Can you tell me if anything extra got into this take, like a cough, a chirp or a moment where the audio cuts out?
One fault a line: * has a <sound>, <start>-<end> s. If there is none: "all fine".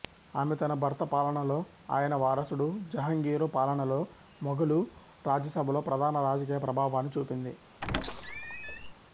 * has a squeak, 7.8-8.9 s